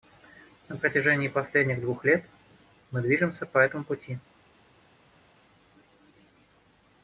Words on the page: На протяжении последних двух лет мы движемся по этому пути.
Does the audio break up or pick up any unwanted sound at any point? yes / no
no